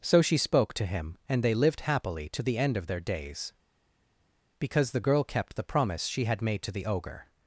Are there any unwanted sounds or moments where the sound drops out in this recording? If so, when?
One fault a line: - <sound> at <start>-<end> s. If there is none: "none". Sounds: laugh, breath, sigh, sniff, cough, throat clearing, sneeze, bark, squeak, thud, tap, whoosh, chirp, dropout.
none